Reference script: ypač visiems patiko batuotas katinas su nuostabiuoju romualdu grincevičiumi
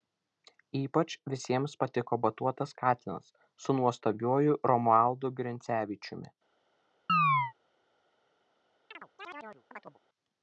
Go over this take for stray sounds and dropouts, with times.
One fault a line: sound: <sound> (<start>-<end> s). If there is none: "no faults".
sound: chirp (7.1-7.5 s)
sound: chirp (8.9-10.0 s)